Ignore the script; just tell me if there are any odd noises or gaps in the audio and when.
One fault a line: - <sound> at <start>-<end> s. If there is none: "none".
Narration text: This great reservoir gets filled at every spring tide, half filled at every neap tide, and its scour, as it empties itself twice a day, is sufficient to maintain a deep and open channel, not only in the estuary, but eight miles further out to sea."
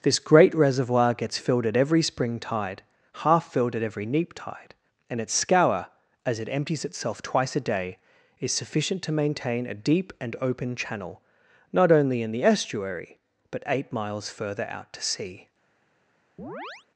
- chirp at 16.4-16.9 s